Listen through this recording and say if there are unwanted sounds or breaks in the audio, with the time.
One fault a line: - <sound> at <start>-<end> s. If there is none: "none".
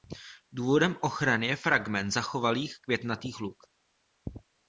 none